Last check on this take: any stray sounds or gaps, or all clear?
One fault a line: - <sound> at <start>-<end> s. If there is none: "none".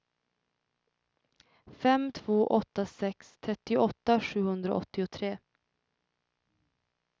none